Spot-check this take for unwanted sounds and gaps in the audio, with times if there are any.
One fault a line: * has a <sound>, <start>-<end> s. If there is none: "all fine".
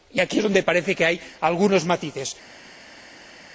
all fine